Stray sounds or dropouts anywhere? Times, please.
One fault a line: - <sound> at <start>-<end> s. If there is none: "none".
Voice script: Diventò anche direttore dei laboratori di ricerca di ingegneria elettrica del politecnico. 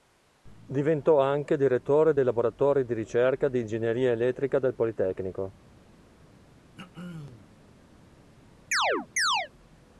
- throat clearing at 6.8-7.5 s
- chirp at 8.7-9.5 s